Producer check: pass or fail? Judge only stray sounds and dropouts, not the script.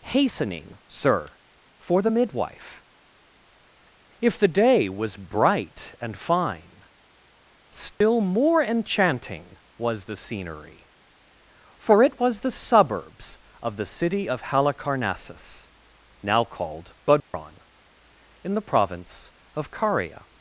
fail